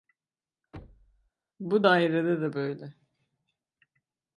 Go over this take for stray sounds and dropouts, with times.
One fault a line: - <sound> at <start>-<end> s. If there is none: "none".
- thud at 0.7-1.3 s